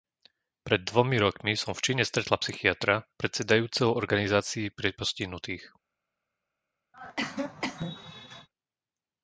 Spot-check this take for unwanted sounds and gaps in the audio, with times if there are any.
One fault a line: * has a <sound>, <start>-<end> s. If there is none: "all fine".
* has a cough, 6.9-8.5 s